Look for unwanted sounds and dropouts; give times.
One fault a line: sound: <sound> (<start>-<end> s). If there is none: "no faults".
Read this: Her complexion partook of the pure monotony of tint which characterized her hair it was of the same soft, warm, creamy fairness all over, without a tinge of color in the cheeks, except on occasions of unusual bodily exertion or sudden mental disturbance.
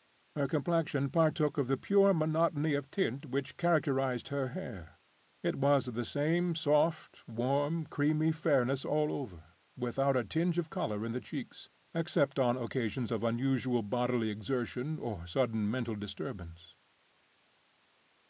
no faults